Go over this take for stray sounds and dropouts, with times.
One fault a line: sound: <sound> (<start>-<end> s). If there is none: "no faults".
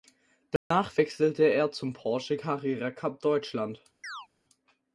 sound: dropout (0.6-0.7 s)
sound: chirp (4.0-4.3 s)